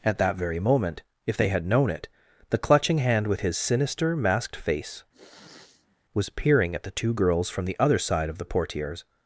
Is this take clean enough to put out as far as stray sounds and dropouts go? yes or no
no